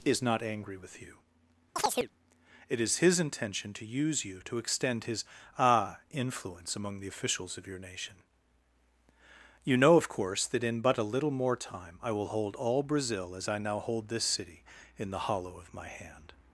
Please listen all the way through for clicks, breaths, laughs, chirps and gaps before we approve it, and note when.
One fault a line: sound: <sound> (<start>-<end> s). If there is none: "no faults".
sound: chirp (1.8-2.1 s)